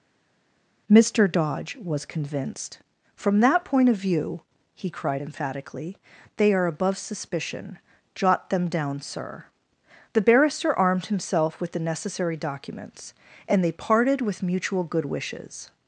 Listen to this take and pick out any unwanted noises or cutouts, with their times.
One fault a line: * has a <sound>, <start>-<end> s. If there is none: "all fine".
all fine